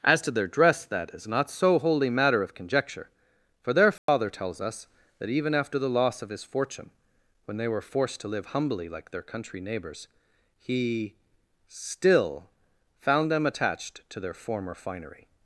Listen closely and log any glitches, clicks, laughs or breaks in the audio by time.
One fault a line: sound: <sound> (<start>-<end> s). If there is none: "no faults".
sound: dropout (4.0-4.1 s)